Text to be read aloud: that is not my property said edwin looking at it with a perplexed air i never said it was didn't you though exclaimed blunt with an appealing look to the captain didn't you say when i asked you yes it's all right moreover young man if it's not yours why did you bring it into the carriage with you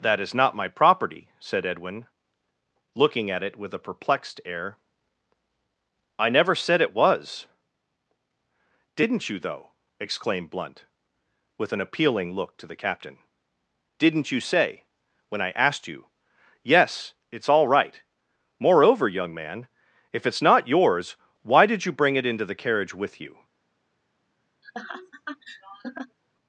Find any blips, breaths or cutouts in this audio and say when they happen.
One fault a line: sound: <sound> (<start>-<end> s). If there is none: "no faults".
sound: laugh (24.6-26.2 s)